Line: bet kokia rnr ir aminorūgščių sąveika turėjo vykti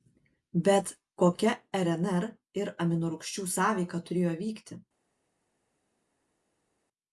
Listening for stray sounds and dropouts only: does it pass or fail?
pass